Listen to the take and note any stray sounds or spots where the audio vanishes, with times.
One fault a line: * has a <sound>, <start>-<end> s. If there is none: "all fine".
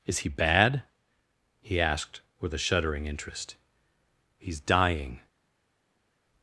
all fine